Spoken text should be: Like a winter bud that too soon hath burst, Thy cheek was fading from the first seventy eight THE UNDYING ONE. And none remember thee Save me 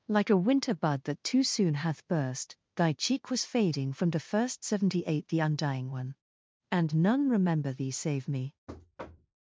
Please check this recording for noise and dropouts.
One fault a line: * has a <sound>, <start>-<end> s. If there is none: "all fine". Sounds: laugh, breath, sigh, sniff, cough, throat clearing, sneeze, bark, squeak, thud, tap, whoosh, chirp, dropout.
* has a thud, 8.7-9.4 s